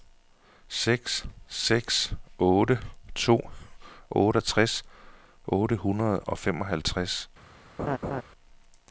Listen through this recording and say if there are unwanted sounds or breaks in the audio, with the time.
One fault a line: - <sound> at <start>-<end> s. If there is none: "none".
- laugh at 7.8-8.2 s